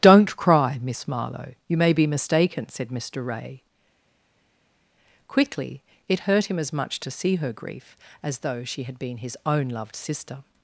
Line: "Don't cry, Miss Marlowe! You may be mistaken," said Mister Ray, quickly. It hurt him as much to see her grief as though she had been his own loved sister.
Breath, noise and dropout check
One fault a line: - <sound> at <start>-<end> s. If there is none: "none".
none